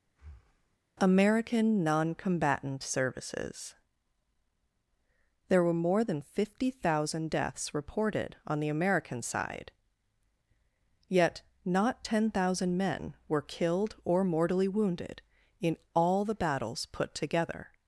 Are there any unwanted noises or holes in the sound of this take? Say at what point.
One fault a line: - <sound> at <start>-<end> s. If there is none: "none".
- breath at 0.1-0.8 s